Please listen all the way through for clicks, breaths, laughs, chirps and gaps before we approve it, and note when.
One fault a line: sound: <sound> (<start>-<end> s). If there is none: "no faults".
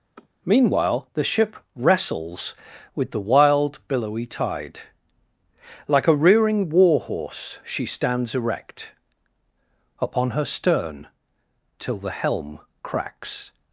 sound: sniff (0.2-0.3 s)